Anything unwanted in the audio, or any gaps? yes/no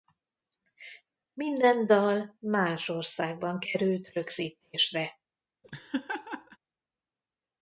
yes